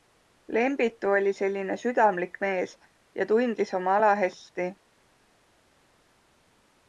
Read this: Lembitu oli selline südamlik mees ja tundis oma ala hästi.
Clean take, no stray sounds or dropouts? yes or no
yes